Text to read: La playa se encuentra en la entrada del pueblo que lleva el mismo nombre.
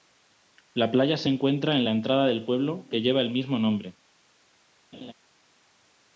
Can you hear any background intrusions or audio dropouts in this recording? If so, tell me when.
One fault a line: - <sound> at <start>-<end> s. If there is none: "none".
- laugh at 4.9-5.1 s